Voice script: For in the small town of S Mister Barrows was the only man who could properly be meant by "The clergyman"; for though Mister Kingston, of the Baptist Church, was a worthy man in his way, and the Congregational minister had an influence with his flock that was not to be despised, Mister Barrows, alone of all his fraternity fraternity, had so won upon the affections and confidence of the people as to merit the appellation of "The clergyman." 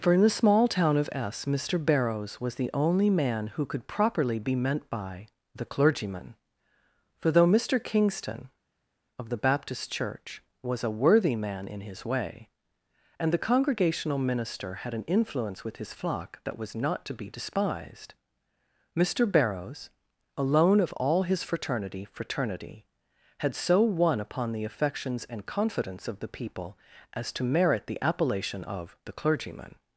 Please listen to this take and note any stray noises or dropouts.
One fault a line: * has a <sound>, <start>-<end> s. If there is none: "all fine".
all fine